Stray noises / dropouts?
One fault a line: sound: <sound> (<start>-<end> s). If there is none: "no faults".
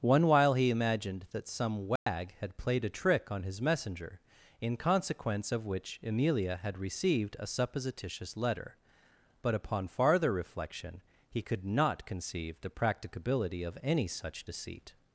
sound: dropout (2.0-2.1 s)